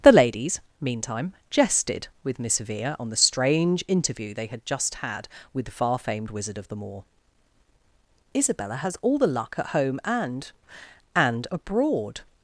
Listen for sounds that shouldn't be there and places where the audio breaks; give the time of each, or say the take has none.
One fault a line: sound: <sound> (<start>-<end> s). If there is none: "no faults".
no faults